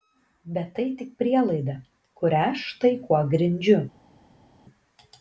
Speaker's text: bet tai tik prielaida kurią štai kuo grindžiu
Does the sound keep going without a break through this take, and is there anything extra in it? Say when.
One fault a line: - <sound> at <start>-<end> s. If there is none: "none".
none